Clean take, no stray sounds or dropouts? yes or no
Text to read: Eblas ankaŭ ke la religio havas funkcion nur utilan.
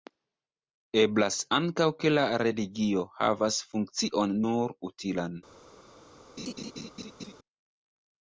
no